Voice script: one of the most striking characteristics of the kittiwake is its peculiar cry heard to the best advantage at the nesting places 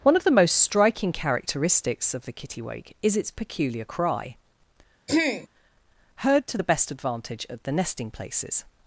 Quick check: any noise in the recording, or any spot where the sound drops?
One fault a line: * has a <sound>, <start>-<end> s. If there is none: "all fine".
* has a throat clearing, 5.1-5.5 s